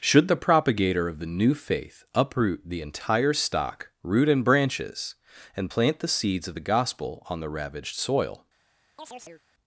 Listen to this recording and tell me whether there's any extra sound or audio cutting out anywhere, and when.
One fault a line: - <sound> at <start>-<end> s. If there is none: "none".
- chirp at 9.0-9.4 s